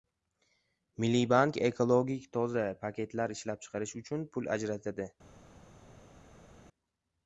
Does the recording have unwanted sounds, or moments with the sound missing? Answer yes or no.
no